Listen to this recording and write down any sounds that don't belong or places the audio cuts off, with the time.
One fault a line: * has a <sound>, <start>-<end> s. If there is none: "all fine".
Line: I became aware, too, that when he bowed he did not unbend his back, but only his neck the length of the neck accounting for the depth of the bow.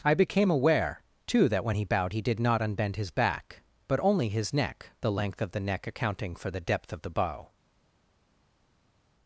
all fine